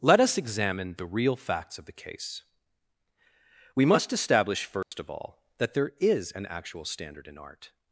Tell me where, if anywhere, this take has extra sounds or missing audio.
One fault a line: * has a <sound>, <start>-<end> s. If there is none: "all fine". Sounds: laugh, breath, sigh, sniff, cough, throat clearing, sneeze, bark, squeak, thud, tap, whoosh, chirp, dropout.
* has a dropout, 4.8-4.9 s